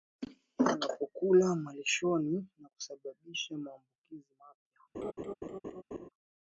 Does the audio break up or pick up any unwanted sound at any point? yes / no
yes